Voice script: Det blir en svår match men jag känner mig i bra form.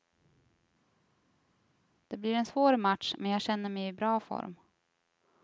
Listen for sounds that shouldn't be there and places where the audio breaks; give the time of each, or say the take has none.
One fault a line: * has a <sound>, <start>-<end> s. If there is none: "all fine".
all fine